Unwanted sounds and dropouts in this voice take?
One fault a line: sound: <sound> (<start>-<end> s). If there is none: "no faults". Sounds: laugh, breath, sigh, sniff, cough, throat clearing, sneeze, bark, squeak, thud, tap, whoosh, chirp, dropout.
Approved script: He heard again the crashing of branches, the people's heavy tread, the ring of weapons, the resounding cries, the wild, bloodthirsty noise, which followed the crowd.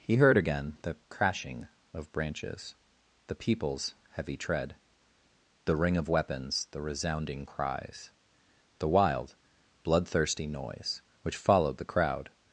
no faults